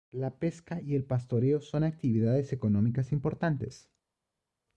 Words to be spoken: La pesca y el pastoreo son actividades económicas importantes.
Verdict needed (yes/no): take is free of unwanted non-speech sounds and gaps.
yes